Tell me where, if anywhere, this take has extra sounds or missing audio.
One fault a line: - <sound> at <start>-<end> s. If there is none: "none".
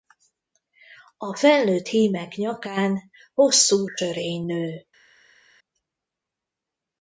none